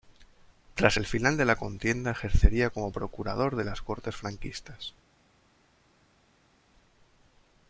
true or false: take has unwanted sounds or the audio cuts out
false